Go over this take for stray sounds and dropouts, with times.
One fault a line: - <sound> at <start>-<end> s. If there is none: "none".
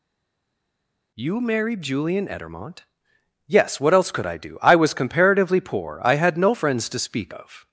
none